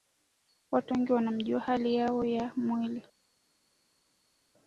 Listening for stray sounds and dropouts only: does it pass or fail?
pass